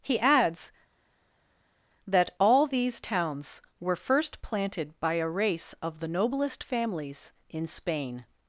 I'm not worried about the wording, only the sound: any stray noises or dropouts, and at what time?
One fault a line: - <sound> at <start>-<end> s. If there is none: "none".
none